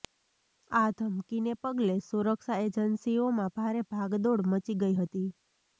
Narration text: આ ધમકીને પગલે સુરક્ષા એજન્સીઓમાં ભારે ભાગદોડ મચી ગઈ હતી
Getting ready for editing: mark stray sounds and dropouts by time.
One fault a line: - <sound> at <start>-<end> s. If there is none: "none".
none